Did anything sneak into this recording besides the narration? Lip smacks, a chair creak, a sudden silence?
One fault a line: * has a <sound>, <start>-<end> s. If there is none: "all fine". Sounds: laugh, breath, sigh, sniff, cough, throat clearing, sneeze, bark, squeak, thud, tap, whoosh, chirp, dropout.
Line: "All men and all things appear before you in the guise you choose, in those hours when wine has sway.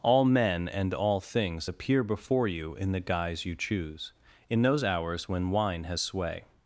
all fine